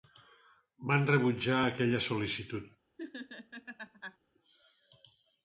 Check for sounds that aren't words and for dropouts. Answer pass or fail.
fail